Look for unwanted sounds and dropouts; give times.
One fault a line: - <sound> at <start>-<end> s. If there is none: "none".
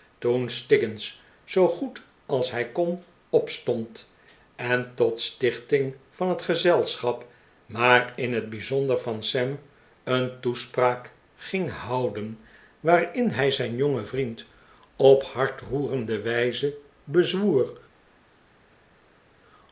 none